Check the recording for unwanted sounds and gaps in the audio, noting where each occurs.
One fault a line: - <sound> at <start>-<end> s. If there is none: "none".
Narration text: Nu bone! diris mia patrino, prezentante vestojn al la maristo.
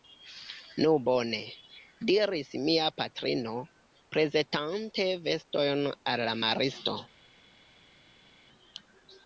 none